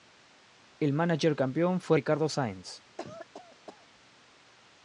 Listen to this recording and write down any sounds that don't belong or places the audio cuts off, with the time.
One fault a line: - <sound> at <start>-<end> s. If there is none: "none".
- cough at 3.0-3.9 s